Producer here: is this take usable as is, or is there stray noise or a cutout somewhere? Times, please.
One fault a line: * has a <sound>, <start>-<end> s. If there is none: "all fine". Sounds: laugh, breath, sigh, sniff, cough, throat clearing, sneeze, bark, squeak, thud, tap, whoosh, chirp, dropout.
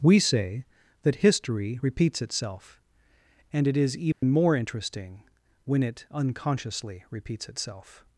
* has a dropout, 4.1-4.2 s